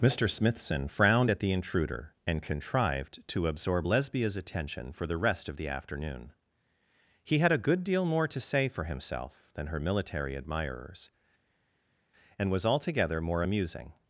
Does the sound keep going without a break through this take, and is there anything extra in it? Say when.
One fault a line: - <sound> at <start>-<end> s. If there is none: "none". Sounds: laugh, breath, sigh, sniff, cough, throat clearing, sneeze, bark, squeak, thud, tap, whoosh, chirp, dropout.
none